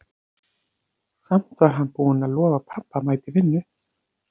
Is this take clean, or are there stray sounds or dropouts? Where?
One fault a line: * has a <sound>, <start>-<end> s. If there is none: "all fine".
all fine